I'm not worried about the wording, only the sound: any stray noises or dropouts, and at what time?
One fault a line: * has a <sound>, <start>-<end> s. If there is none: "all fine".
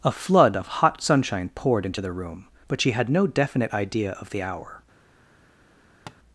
* has a tap, 6.1-6.2 s